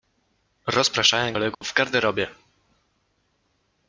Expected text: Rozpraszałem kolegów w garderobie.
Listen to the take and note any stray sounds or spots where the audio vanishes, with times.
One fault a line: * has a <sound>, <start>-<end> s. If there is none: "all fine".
* has a dropout, 1.5-1.6 s